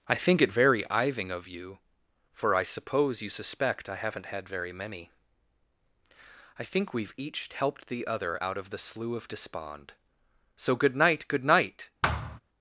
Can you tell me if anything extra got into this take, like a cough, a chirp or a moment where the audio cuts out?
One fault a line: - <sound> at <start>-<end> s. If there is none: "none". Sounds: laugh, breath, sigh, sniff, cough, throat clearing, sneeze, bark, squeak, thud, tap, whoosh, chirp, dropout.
- thud at 12.0-12.4 s